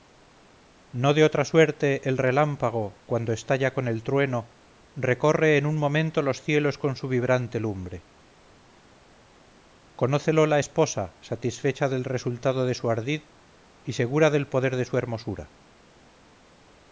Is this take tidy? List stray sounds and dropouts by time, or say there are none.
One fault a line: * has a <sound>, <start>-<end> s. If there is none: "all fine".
all fine